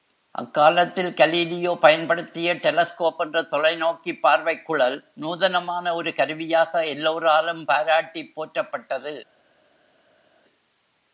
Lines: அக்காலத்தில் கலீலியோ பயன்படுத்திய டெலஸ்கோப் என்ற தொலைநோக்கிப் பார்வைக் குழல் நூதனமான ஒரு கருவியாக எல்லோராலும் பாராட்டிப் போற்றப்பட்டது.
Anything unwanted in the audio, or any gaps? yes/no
no